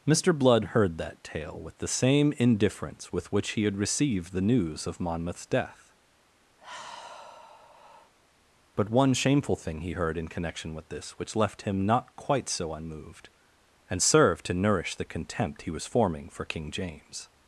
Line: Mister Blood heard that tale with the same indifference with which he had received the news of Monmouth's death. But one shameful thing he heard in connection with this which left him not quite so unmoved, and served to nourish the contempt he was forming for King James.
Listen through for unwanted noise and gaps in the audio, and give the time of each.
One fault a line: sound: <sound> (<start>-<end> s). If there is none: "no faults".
sound: sigh (6.6-8.1 s)